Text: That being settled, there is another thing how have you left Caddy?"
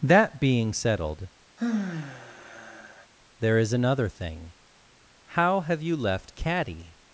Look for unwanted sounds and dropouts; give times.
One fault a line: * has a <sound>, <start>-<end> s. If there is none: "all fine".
* has a sigh, 1.6-3.1 s